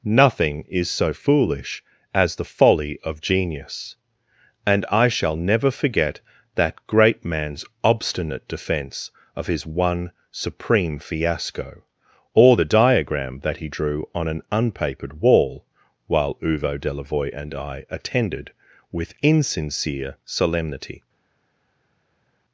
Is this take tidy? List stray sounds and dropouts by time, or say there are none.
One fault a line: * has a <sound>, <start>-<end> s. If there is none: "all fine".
all fine